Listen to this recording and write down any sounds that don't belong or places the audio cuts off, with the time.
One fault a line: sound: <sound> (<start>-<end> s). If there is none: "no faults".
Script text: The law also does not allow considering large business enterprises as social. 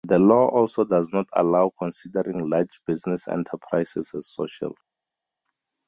no faults